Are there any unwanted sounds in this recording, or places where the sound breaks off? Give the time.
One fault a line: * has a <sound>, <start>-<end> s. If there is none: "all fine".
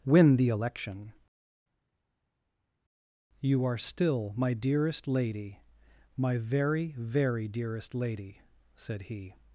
all fine